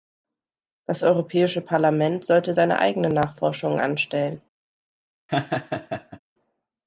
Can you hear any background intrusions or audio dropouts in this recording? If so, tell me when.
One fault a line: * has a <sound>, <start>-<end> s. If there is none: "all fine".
* has a laugh, 5.3-6.2 s